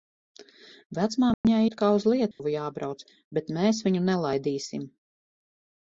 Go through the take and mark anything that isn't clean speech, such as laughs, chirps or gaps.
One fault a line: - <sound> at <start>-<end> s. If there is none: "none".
- dropout at 1.3-1.4 s
- dropout at 2.3-2.4 s